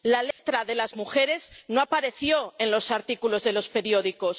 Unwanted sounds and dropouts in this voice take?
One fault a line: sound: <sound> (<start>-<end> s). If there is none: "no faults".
sound: dropout (0.3-0.4 s)